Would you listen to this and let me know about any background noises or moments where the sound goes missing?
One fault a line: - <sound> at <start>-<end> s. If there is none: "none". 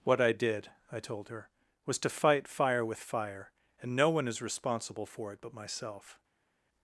none